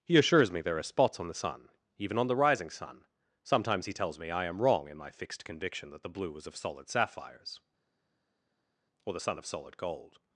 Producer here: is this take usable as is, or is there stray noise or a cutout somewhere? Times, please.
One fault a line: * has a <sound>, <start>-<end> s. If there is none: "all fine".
all fine